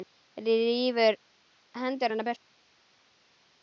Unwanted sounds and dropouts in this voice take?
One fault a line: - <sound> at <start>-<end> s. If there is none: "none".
none